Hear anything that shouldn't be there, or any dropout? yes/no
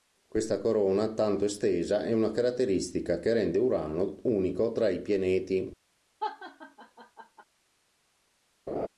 yes